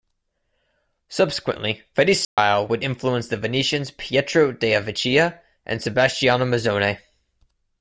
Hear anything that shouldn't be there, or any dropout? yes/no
yes